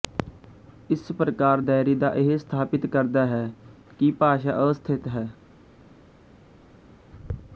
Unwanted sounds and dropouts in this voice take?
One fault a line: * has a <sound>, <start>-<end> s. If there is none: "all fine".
all fine